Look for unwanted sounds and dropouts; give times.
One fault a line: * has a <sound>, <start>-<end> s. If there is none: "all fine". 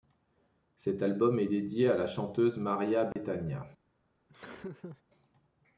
* has a dropout, 3.1-3.2 s
* has a laugh, 4.3-5.0 s